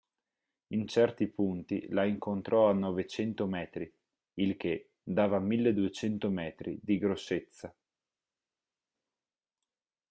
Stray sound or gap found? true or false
false